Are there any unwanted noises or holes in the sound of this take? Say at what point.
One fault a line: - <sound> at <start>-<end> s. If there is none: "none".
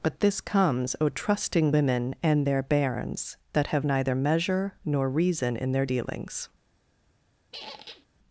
- squeak at 7.5-8.1 s